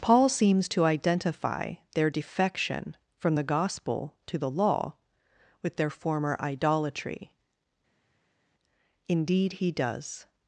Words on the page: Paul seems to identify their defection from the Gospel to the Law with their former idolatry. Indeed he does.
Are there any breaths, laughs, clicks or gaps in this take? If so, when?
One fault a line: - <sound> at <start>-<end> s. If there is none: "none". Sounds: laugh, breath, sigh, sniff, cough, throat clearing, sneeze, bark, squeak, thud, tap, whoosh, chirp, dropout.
none